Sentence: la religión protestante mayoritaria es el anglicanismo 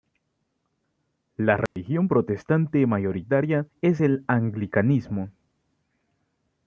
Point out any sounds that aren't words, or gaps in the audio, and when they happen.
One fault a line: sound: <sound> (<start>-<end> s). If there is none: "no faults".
sound: dropout (1.7-1.8 s)